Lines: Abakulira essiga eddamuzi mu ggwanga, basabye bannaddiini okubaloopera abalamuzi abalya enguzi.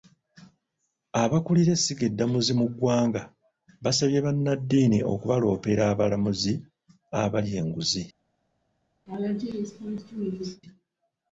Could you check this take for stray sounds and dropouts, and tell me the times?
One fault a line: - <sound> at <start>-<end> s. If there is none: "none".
- laugh at 9.1-10.6 s